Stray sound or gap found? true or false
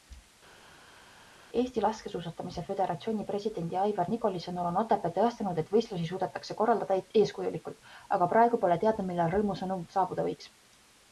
false